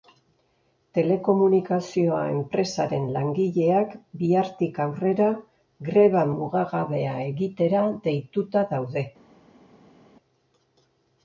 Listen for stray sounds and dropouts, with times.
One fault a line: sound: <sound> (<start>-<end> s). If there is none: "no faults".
no faults